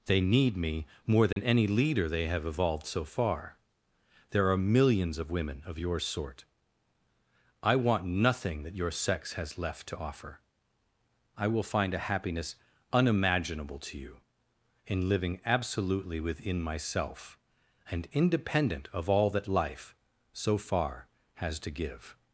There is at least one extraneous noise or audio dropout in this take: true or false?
true